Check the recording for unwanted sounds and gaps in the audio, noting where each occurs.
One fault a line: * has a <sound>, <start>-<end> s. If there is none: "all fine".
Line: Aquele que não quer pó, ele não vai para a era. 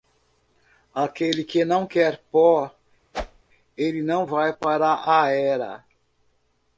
* has a whoosh, 3.1-3.4 s